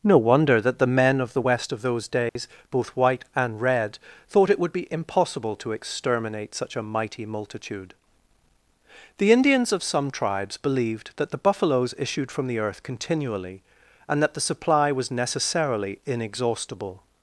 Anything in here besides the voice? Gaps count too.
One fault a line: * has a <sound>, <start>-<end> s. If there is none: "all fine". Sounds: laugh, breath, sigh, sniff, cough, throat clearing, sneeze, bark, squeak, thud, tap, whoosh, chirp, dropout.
* has a dropout, 2.3-2.4 s